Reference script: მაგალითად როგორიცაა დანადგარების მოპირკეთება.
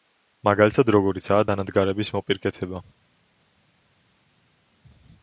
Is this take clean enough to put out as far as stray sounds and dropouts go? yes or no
yes